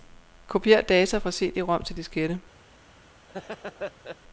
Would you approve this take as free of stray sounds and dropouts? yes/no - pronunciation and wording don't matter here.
no